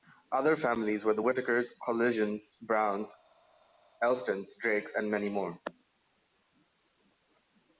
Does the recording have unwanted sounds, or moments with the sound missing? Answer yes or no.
no